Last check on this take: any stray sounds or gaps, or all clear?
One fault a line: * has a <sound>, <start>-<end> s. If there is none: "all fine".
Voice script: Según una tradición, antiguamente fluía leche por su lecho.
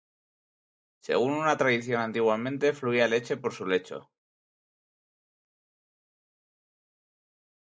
all fine